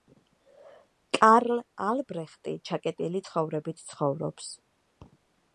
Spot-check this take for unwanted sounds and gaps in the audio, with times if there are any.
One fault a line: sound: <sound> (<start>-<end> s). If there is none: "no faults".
no faults